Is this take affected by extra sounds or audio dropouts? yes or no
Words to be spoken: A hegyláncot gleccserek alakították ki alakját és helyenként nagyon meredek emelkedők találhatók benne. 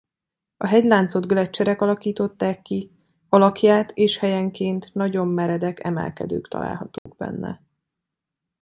yes